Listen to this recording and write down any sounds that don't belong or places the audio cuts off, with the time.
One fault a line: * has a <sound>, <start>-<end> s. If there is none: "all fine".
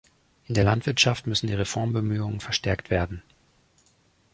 all fine